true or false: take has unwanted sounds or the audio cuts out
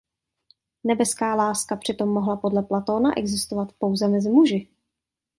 false